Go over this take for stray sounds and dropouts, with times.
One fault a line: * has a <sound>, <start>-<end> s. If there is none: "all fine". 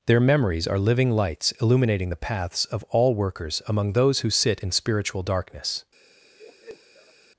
* has a laugh, 6.3-7.1 s